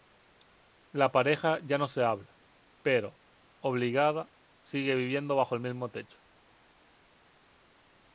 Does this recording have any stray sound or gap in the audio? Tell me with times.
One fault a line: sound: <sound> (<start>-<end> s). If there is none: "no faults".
no faults